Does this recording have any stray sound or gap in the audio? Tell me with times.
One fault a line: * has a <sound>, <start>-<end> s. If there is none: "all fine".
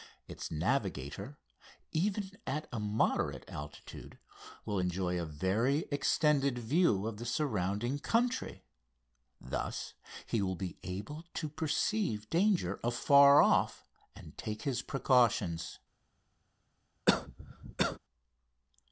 * has a cough, 17.1-18.0 s